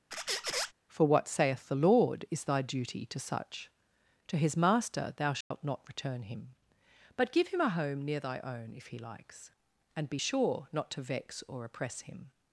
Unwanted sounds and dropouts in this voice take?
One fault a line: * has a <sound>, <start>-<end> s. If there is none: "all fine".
* has a squeak, 0.1-0.7 s
* has a dropout, 5.4-5.5 s